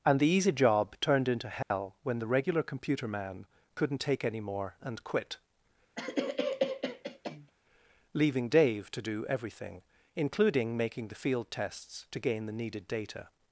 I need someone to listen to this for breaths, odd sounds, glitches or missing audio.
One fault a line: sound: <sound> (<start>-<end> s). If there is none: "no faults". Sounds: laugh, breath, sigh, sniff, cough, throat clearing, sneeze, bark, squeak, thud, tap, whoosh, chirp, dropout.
sound: dropout (1.6-1.7 s)
sound: cough (6.0-7.5 s)